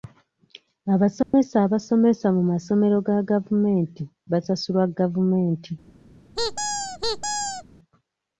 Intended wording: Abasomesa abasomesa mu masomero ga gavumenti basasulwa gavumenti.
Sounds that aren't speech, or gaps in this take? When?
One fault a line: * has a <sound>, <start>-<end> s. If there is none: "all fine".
* has a dropout, 1.2-1.3 s
* has a squeak, 6.4-7.6 s